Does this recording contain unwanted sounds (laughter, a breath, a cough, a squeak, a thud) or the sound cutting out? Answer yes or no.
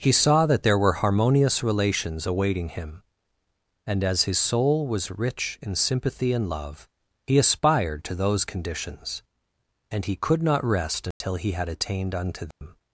yes